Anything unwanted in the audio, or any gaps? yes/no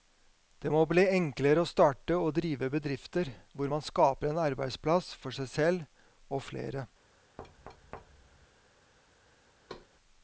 yes